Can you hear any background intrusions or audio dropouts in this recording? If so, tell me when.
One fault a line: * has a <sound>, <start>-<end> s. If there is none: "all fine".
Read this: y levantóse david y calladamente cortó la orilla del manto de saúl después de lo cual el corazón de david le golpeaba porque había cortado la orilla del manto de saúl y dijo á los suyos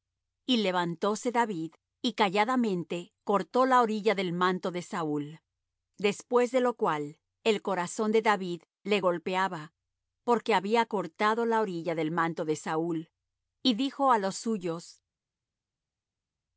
all fine